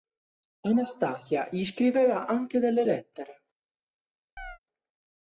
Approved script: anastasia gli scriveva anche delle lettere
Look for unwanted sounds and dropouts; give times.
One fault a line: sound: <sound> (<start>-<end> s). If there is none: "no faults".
sound: chirp (4.4-4.6 s)